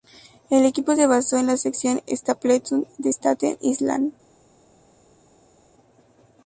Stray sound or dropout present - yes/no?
no